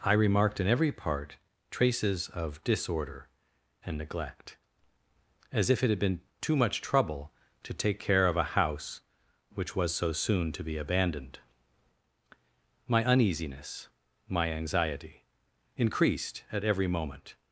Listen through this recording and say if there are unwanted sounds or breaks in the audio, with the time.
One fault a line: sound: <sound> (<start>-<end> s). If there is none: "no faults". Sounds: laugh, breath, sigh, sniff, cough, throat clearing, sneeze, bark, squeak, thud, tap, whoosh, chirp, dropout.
no faults